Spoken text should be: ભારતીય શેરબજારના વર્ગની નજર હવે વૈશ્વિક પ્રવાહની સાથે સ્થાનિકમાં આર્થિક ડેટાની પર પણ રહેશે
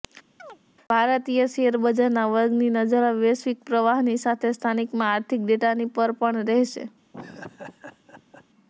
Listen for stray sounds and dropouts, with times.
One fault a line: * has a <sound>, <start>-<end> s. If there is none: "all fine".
* has a chirp, 0.4-0.6 s
* has a laugh, 7.1-8.5 s